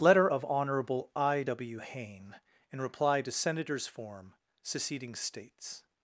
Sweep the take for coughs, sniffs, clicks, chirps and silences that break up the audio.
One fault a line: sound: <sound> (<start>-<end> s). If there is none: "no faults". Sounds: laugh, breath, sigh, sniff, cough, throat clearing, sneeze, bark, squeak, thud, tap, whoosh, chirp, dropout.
no faults